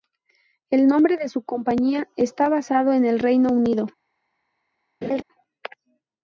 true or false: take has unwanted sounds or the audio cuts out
true